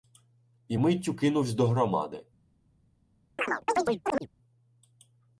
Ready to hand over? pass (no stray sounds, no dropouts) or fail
fail